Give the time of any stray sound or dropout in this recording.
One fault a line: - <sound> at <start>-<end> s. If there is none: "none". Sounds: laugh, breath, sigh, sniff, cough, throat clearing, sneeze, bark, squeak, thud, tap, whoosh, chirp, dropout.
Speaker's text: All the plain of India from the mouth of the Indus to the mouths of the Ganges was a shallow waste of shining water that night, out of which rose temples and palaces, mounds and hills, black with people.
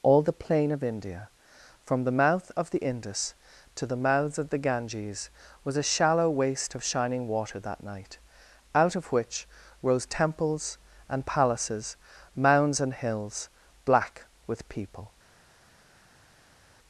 none